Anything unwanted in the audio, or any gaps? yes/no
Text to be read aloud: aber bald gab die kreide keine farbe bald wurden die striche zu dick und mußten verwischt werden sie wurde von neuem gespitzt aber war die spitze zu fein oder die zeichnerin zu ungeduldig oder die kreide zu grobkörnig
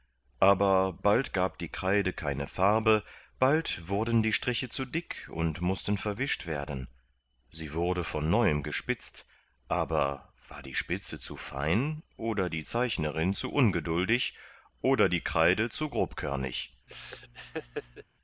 yes